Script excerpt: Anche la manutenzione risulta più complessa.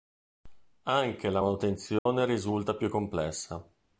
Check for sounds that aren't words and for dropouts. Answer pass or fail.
fail